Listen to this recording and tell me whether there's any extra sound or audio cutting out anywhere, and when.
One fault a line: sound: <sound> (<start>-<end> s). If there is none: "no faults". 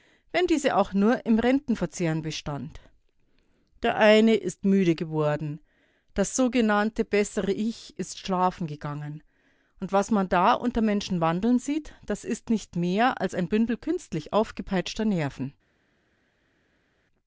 no faults